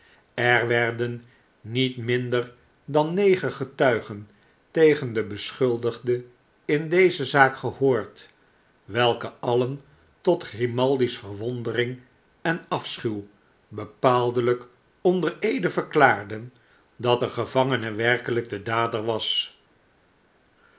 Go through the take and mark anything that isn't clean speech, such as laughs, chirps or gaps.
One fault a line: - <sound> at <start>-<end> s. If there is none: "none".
none